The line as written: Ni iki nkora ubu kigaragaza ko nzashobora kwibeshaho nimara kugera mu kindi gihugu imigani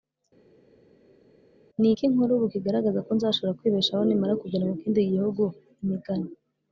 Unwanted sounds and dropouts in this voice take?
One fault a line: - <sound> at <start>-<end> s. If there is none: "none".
none